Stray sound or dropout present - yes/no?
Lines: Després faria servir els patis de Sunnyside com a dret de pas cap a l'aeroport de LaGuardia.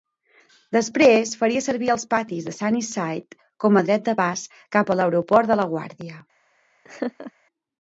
yes